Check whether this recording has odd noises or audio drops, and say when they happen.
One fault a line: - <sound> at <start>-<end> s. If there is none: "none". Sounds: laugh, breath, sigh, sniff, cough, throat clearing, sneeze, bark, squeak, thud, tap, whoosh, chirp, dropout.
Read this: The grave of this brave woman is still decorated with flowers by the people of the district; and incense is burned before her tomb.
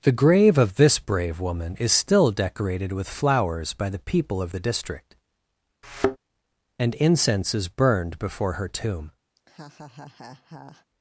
- thud at 5.8-6.2 s
- laugh at 9.4-10.9 s